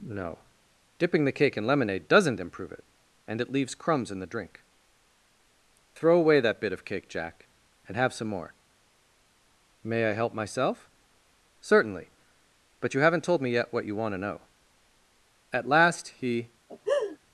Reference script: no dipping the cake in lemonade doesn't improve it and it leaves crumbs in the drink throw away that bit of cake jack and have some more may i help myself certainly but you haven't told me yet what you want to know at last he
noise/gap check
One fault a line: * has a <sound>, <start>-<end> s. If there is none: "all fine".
* has a laugh, 16.7-17.2 s